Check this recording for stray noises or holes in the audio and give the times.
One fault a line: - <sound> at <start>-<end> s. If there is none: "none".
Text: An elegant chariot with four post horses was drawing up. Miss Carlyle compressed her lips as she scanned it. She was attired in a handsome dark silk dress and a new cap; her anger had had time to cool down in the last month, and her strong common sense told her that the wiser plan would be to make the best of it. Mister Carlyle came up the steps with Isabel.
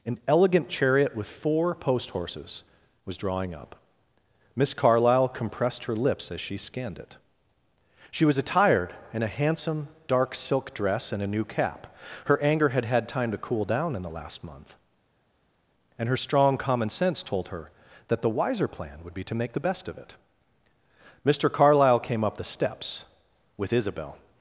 none